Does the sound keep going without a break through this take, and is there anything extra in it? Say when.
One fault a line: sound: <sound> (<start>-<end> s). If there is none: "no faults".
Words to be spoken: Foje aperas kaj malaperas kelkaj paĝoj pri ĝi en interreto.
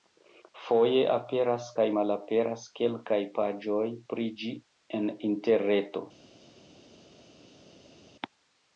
no faults